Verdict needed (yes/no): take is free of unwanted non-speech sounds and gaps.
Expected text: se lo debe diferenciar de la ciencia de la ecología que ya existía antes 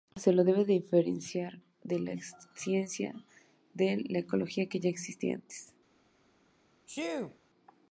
no